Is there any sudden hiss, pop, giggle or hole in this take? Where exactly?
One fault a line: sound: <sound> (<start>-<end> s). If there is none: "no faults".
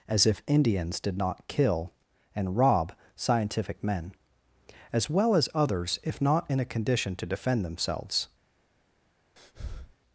sound: breath (9.4-10.0 s)